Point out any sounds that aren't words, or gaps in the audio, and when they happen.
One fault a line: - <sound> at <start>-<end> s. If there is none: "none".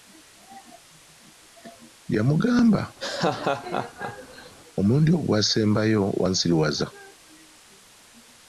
- laugh at 3.0-4.5 s